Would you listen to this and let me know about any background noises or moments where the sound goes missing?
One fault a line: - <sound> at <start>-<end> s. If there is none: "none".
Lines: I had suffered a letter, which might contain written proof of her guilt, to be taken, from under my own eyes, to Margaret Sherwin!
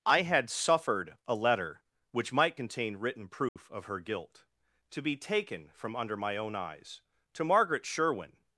- dropout at 3.5-3.6 s